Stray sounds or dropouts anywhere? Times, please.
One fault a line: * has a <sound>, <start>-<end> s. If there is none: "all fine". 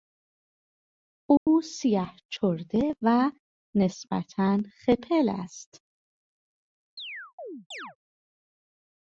* has a dropout, 1.4-1.5 s
* has a chirp, 7.0-8.0 s